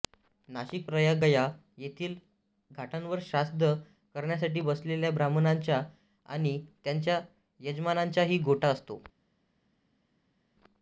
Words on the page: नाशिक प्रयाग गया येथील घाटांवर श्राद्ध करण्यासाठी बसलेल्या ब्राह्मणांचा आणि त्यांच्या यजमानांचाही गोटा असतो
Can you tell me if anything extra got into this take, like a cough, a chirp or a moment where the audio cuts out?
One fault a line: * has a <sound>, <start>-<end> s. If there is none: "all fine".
all fine